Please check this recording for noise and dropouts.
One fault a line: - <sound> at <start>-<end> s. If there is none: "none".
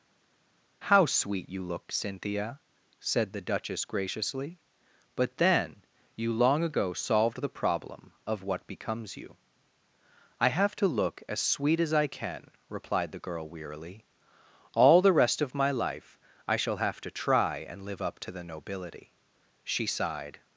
none